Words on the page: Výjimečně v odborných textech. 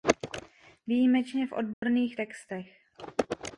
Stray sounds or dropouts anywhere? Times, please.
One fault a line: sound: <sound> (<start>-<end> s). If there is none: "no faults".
sound: dropout (1.7-1.8 s)